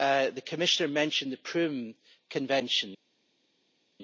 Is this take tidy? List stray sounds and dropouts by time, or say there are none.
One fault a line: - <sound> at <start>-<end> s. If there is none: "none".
none